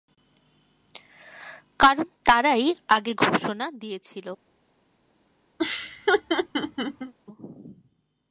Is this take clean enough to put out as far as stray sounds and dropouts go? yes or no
no